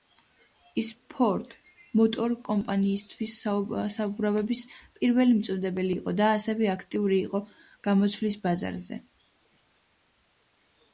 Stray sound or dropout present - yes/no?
no